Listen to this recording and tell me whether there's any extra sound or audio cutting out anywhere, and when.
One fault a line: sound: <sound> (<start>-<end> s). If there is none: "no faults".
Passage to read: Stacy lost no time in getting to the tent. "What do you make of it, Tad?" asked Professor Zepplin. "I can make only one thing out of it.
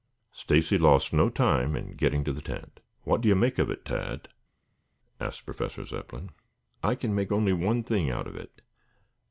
no faults